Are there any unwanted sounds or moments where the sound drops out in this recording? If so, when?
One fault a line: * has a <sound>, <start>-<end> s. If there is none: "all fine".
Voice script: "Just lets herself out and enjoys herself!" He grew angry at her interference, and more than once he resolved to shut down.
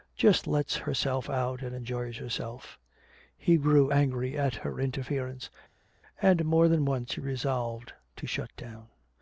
all fine